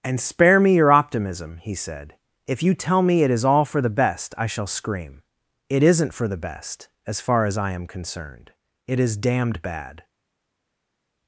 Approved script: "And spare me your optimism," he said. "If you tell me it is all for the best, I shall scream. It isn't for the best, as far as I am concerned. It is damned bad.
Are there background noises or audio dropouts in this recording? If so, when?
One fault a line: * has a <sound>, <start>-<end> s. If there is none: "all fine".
all fine